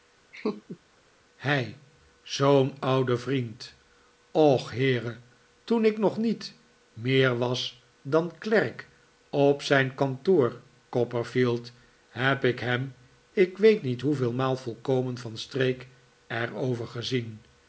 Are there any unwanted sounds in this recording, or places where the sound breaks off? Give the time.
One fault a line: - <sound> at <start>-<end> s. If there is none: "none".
- laugh at 0.3-0.8 s